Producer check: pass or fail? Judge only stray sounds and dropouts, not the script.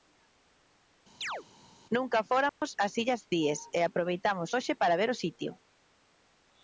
fail